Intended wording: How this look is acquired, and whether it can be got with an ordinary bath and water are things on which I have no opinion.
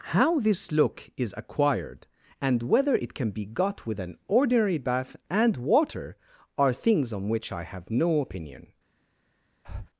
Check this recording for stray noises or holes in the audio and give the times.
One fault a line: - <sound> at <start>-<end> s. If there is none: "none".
- breath at 9.6-9.9 s